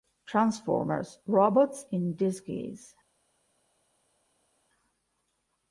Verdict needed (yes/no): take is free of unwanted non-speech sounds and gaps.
yes